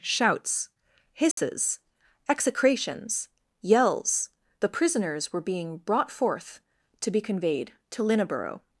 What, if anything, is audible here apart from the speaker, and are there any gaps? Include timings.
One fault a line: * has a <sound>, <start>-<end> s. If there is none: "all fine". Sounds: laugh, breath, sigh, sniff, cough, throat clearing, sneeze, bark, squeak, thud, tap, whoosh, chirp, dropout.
* has a dropout, 1.3-1.4 s